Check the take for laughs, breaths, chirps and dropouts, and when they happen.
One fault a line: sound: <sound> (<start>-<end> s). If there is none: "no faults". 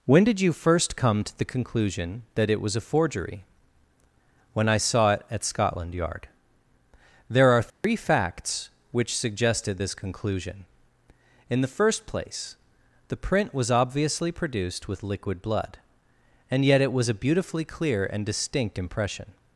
sound: dropout (7.7-7.8 s)